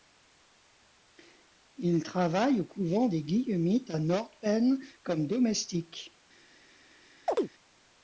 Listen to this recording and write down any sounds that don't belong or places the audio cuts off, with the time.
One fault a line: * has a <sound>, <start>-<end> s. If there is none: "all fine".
* has a chirp, 7.3-7.5 s